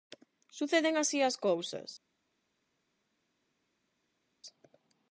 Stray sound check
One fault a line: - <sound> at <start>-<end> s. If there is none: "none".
none